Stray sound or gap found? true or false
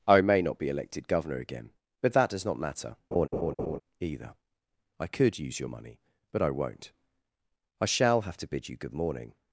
true